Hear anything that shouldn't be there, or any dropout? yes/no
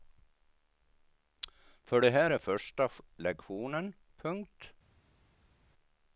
no